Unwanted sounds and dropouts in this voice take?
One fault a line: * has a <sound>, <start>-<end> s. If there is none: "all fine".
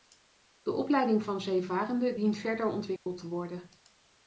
* has a dropout, 3.0-3.1 s